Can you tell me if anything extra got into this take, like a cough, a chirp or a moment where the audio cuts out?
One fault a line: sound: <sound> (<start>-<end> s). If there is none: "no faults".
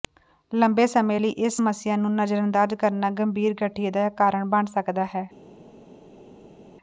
no faults